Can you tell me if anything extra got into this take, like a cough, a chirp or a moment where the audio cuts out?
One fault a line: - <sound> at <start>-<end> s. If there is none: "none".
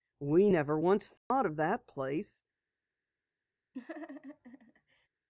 - dropout at 1.2-1.3 s
- laugh at 3.7-5.1 s